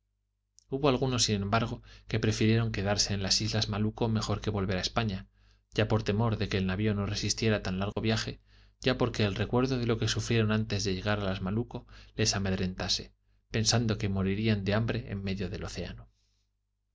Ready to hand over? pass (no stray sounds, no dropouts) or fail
fail